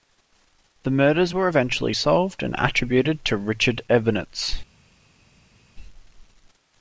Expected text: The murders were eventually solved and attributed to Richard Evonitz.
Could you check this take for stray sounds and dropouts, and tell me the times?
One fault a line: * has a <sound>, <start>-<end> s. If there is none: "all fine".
all fine